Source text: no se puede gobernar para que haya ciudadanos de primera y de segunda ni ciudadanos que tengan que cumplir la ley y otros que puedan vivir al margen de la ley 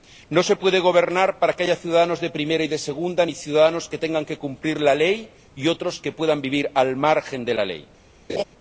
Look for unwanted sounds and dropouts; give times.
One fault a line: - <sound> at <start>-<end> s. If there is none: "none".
- laugh at 8.3-8.4 s